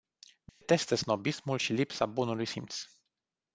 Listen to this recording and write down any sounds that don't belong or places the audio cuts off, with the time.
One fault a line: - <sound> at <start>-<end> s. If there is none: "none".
- dropout at 0.5-0.6 s